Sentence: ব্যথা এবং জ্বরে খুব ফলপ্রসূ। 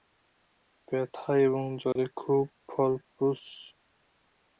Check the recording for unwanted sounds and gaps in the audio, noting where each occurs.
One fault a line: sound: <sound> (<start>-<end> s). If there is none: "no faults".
sound: dropout (1.9-2.0 s)